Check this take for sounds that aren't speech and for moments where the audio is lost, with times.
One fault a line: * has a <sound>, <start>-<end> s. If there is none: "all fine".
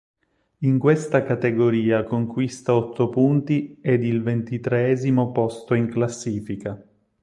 all fine